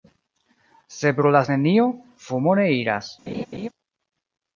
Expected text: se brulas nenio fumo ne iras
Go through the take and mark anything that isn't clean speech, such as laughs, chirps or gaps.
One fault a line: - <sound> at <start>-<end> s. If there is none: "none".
- laugh at 3.3-3.7 s